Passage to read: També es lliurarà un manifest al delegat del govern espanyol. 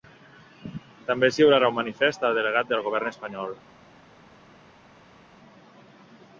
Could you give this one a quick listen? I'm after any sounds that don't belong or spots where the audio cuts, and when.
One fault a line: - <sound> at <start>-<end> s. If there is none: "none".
none